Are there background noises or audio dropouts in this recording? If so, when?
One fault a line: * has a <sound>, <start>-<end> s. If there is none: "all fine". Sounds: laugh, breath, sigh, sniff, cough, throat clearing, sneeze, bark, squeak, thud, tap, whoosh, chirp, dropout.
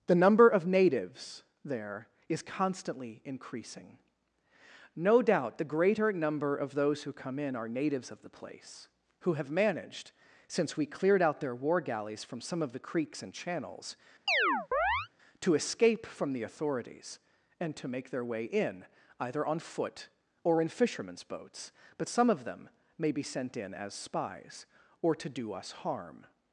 * has a chirp, 14.3-15.1 s